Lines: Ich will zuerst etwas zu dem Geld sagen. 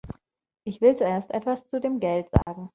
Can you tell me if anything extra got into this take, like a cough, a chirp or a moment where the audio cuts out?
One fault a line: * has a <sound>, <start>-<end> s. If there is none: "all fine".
* has a dropout, 2.4-2.5 s